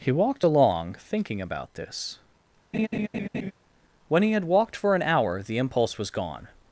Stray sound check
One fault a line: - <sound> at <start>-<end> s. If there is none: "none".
- laugh at 2.7-3.5 s